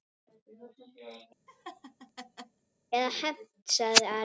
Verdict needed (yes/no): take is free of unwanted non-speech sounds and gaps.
no